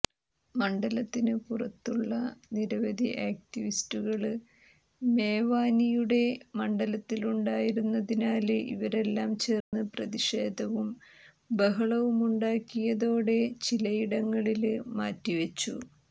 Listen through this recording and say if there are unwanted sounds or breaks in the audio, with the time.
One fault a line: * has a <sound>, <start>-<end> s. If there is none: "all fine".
* has a dropout, 9.6-9.7 s